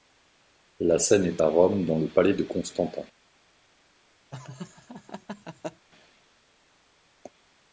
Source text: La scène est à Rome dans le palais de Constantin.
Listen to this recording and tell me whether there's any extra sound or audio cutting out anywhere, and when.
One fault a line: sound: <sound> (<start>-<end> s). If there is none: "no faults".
sound: laugh (4.3-5.9 s)